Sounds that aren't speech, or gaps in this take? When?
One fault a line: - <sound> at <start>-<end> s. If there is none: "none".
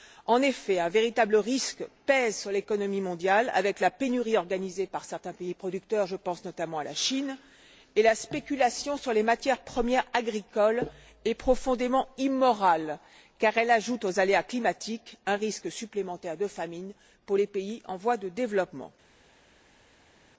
none